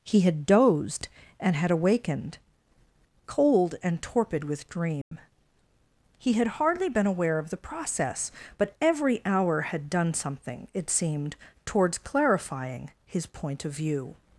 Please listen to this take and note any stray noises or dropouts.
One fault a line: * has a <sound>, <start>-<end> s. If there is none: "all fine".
* has a dropout, 5.0-5.1 s